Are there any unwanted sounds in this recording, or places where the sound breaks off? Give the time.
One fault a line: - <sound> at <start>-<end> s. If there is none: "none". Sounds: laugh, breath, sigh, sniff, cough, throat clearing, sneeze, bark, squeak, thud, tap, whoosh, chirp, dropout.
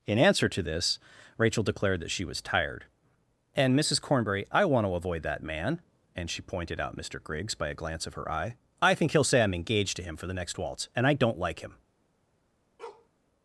- bark at 12.8-13.1 s